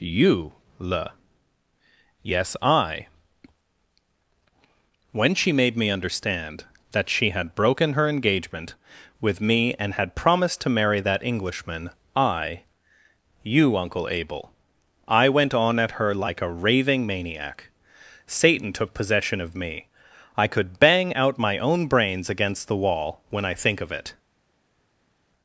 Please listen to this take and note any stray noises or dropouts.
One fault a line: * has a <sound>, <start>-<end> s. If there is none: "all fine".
all fine